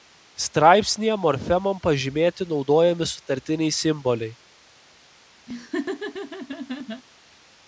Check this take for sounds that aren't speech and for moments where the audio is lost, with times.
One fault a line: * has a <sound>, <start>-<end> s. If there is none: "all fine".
* has a laugh, 5.5-7.0 s